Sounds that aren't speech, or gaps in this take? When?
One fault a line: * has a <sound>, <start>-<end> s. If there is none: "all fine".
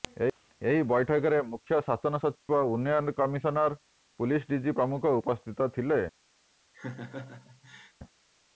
* has a dropout, 2.4-2.5 s
* has a laugh, 6.7-7.9 s